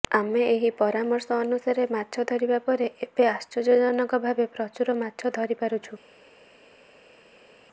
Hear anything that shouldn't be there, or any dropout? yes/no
no